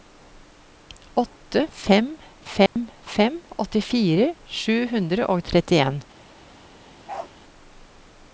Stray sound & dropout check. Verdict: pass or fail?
fail